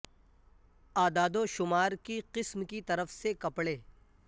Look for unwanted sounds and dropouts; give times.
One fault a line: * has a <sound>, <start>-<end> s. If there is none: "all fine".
all fine